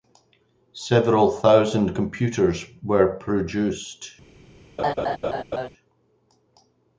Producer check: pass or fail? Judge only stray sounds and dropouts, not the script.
fail